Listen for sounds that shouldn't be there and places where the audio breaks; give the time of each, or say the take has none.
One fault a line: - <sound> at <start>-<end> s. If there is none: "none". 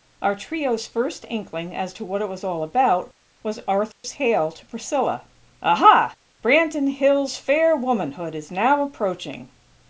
- dropout at 3.9-4.0 s